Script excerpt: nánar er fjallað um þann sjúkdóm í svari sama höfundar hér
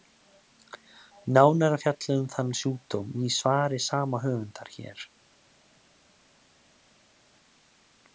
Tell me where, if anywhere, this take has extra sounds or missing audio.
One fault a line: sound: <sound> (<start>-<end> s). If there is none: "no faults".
no faults